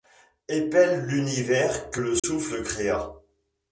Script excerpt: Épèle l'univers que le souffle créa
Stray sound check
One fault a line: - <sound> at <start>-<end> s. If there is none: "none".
- dropout at 2.2-2.2 s